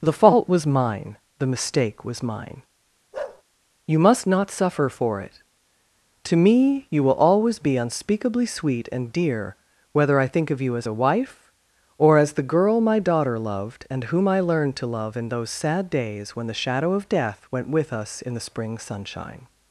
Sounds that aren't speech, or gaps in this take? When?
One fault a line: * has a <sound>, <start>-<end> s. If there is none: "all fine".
* has a bark, 3.1-3.4 s